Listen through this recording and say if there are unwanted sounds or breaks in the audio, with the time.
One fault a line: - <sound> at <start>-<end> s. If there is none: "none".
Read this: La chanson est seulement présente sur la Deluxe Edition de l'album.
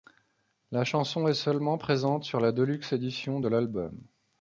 none